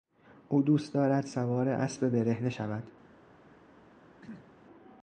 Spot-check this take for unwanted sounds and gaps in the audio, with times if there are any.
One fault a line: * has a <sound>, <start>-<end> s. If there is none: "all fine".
* has a throat clearing, 4.2-4.5 s